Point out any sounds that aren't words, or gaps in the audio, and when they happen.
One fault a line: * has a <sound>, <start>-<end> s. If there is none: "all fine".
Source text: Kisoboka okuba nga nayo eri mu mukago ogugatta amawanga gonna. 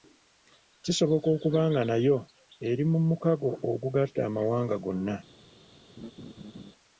* has a laugh, 6.0-6.7 s